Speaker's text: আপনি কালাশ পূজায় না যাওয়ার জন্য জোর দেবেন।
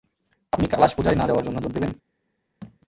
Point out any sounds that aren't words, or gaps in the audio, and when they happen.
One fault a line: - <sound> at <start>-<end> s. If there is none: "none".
- thud at 2.6-2.8 s